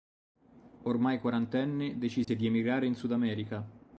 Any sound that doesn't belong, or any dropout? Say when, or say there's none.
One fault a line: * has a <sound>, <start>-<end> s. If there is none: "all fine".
* has a dropout, 2.2-2.3 s